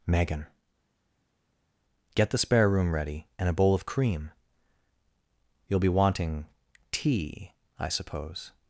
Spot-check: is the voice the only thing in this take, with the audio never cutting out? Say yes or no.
yes